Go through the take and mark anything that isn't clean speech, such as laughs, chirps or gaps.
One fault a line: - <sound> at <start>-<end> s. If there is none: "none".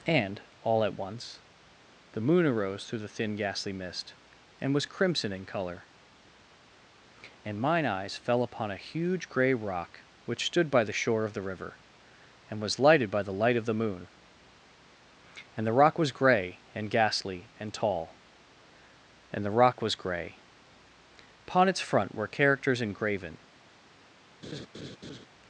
- laugh at 24.4-25.3 s